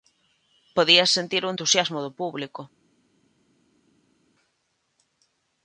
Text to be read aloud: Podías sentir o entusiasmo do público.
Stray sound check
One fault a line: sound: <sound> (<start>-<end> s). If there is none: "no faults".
no faults